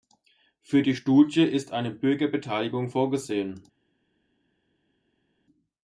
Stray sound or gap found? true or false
false